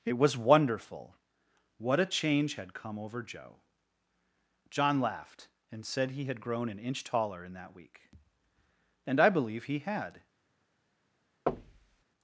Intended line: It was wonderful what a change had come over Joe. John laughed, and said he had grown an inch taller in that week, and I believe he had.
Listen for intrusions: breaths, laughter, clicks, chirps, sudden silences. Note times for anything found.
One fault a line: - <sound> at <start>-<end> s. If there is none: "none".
- thud at 11.5-12.0 s